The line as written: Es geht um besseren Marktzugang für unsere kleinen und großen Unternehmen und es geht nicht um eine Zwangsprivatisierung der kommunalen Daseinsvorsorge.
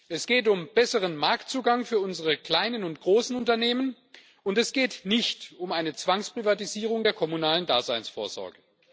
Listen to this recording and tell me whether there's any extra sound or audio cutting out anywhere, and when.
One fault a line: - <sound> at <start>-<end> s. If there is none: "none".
none